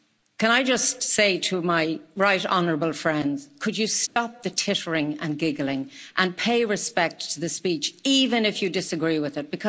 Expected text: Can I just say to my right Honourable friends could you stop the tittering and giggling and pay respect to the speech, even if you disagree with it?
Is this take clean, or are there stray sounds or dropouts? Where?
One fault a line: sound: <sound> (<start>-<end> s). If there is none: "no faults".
sound: dropout (4.1-4.2 s)